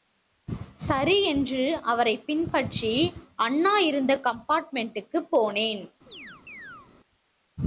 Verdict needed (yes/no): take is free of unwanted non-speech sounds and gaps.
no